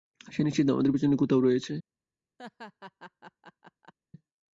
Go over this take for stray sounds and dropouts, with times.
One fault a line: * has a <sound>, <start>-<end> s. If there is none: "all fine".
* has a laugh, 2.4-3.9 s